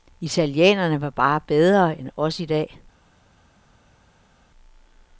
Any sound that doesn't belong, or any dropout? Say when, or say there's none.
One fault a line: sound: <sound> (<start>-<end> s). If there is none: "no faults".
no faults